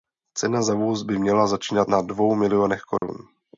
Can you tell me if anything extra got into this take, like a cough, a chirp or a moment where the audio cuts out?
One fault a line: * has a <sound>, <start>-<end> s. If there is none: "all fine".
* has a dropout, 3.0-3.0 s